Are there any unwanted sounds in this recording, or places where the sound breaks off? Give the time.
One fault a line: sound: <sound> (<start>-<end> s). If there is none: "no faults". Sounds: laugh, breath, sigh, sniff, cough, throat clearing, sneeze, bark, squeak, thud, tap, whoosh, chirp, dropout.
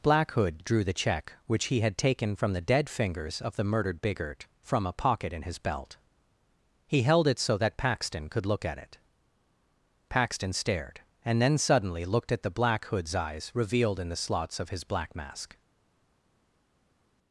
no faults